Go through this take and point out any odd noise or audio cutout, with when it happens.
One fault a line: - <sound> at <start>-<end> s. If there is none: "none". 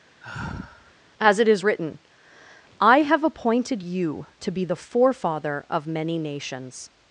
- sigh at 0.2-0.9 s